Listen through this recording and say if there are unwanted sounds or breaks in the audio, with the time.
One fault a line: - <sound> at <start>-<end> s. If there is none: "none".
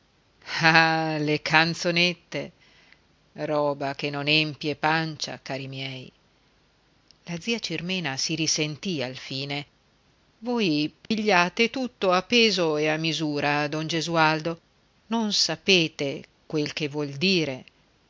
- dropout at 11.1-11.1 s